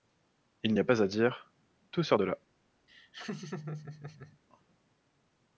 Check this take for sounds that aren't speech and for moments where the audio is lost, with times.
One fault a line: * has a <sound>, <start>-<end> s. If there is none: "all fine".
* has a laugh, 2.9-4.4 s